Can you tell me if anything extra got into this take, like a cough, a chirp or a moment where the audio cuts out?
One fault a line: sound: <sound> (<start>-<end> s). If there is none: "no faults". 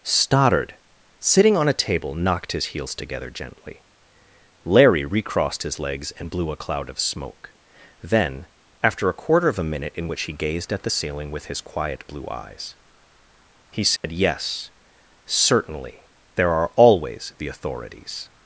sound: dropout (14.0-14.0 s)